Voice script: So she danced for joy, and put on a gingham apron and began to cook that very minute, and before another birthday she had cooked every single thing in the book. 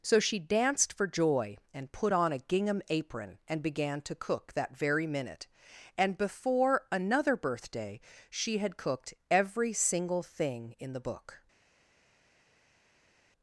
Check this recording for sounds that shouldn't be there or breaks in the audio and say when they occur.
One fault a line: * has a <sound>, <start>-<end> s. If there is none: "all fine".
all fine